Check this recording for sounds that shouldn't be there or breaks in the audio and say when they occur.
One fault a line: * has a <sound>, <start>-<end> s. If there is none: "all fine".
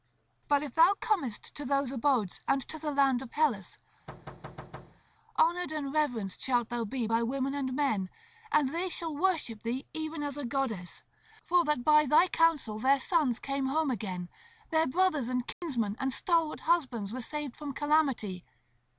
* has a thud, 4.1-5.0 s
* has a dropout, 15.5-15.6 s